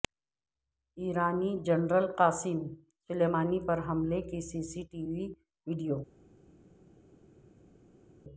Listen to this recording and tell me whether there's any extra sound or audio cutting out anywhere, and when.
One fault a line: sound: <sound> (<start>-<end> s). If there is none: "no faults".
no faults